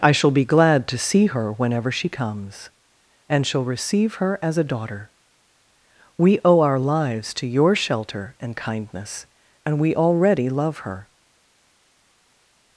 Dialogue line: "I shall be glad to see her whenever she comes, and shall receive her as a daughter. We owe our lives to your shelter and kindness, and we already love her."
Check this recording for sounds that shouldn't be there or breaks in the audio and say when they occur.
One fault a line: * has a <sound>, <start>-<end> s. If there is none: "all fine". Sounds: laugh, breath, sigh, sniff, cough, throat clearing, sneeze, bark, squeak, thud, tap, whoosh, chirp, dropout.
all fine